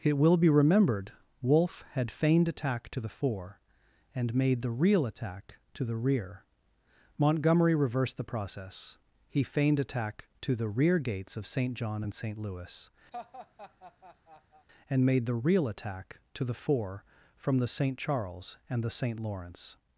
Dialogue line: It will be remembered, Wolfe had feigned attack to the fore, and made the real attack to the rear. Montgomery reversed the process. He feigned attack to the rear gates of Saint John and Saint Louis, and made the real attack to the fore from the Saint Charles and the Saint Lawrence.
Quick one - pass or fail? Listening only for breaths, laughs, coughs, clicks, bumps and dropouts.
fail